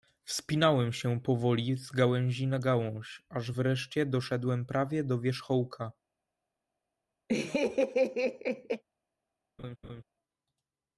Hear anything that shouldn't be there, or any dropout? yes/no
yes